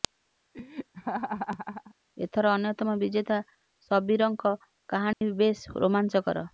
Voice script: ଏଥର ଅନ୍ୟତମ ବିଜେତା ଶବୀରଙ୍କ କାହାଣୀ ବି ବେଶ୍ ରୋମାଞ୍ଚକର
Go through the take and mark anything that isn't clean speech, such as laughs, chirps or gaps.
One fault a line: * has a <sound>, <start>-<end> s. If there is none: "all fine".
* has a laugh, 0.5-2.0 s
* has a dropout, 5.1-5.2 s